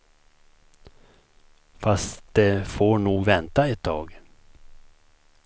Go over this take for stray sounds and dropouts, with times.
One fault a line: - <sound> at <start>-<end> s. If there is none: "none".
none